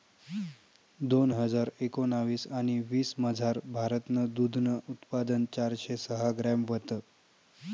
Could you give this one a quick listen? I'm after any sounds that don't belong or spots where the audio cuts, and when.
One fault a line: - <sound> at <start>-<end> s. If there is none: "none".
none